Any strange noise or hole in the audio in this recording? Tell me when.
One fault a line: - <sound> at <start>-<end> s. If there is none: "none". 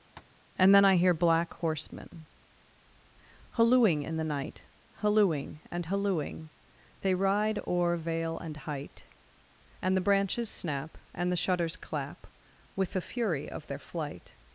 - tap at 0.2-0.4 s